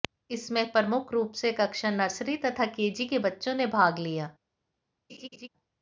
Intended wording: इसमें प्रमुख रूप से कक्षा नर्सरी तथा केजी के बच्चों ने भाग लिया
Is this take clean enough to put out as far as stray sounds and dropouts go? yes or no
no